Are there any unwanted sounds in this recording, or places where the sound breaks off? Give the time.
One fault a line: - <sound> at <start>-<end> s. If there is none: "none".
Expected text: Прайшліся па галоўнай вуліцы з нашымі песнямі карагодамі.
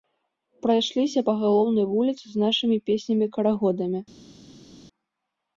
none